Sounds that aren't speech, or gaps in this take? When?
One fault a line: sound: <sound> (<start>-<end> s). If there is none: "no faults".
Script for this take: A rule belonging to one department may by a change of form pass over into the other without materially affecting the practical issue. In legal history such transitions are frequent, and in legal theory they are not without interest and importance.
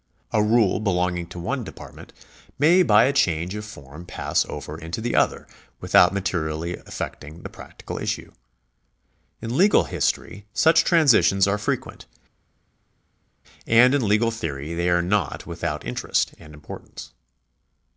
no faults